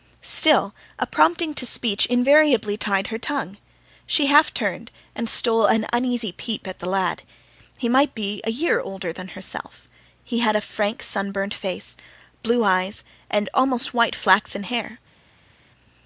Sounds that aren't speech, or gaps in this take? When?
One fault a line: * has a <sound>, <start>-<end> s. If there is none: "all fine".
all fine